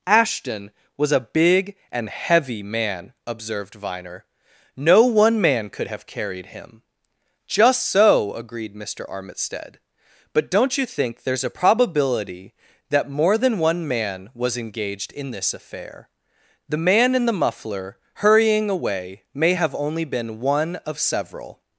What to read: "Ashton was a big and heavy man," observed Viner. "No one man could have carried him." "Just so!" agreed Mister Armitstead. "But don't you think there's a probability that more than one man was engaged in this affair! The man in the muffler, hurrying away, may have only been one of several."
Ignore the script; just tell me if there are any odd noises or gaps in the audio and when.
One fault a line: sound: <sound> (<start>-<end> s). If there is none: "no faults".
no faults